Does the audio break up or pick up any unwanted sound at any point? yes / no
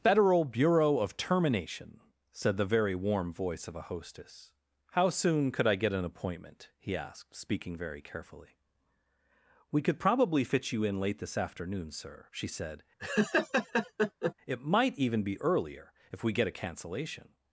yes